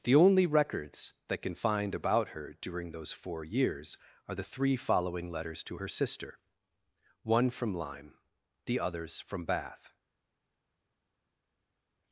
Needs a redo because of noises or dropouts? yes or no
no